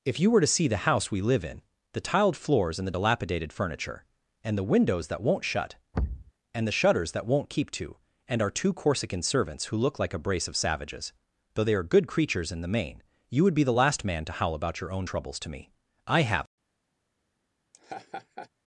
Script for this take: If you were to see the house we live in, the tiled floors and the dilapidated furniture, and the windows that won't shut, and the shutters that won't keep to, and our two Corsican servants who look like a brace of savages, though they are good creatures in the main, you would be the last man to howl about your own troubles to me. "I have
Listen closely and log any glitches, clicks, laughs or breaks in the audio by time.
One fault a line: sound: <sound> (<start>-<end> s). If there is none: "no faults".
sound: thud (5.9-6.3 s)
sound: laugh (17.7-18.5 s)